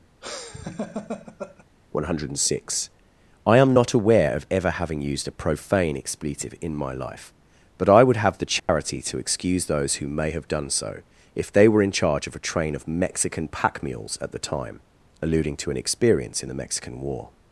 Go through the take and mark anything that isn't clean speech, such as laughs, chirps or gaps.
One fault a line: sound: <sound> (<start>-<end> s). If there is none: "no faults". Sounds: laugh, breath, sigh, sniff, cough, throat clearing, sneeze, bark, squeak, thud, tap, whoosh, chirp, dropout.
sound: laugh (0.2-1.6 s)
sound: dropout (8.6-8.7 s)